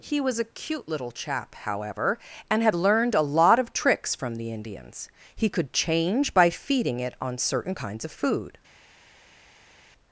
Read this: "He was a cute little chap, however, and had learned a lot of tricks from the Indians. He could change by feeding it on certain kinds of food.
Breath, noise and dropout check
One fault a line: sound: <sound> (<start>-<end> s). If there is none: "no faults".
no faults